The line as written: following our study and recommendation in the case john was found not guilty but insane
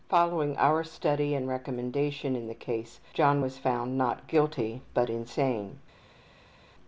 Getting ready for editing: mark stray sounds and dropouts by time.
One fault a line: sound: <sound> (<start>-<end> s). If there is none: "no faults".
no faults